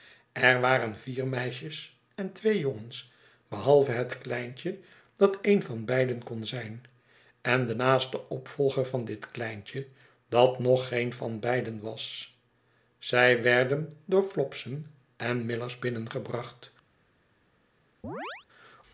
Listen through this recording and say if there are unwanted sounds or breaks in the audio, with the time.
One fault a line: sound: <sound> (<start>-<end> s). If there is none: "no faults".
sound: chirp (18.0-18.5 s)